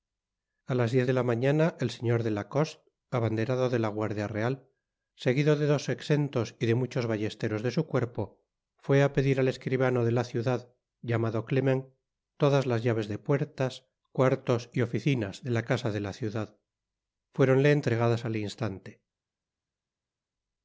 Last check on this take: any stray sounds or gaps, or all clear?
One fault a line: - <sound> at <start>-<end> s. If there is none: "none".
none